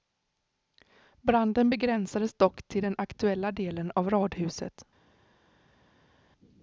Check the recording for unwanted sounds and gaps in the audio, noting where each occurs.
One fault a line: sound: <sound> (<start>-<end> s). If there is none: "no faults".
no faults